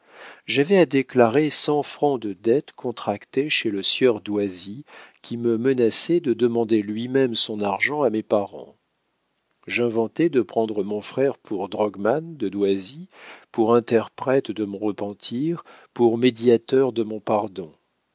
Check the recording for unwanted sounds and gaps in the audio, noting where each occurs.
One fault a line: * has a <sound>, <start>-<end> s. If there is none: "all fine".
all fine